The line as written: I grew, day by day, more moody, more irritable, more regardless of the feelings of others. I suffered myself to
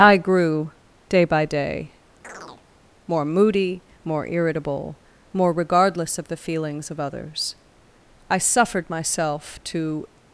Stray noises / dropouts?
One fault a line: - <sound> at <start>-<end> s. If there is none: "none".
- chirp at 2.2-2.6 s